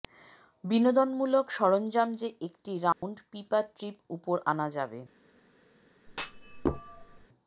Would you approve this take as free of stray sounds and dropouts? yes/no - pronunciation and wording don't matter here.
no